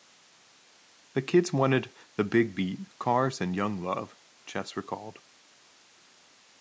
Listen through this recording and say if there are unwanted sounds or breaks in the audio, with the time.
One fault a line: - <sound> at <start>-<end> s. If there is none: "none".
none